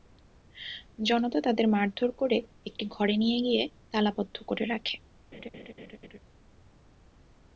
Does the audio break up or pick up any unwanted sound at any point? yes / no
yes